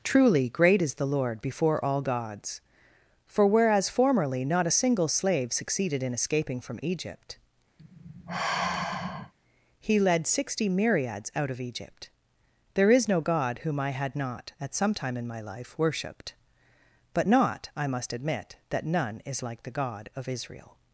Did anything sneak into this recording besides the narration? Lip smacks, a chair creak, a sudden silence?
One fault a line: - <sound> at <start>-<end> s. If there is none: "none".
- sigh at 7.8-9.3 s